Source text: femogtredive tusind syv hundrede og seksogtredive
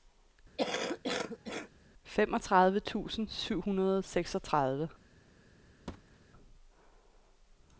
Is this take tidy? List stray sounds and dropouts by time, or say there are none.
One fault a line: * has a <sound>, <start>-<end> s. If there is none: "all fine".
* has a cough, 0.6-1.7 s
* has a thud, 5.9-6.2 s